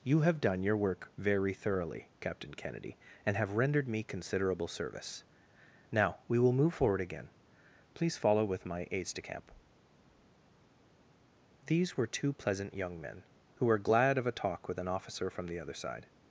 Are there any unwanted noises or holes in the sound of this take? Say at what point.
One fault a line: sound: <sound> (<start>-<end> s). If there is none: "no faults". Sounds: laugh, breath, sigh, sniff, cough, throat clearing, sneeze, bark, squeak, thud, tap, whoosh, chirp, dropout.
no faults